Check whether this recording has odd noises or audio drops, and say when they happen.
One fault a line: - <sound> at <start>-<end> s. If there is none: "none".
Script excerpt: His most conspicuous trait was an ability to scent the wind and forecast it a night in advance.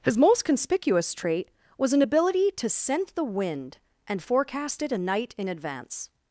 none